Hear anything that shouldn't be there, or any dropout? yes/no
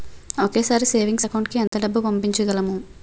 yes